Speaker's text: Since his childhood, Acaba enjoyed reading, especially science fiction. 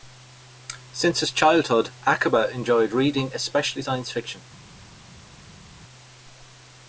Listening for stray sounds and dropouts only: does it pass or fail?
pass